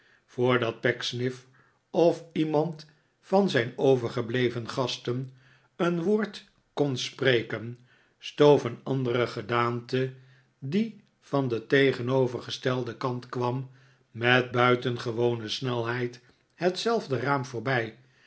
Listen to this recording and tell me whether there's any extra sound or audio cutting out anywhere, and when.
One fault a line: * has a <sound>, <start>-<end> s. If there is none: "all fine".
all fine